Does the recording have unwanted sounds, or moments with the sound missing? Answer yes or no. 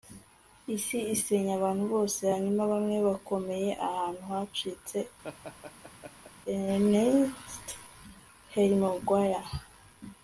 yes